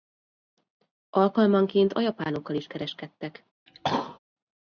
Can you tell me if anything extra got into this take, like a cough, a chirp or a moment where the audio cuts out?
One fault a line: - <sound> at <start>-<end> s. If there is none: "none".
- cough at 3.7-4.2 s